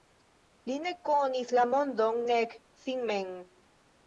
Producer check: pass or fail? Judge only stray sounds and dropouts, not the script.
pass